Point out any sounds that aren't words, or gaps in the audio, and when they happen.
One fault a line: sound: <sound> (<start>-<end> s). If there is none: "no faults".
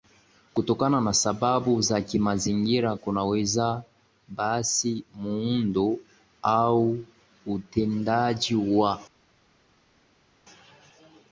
no faults